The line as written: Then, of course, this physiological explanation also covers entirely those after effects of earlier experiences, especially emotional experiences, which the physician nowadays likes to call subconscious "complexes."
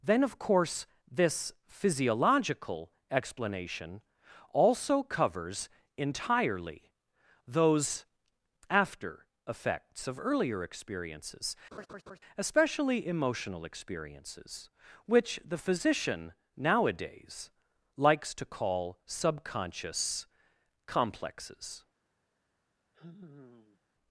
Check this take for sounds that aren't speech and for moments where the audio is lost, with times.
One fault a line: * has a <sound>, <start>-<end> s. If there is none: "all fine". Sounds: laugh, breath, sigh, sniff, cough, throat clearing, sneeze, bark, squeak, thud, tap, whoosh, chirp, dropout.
* has a laugh, 11.7-12.2 s
* has a sigh, 22.9-23.8 s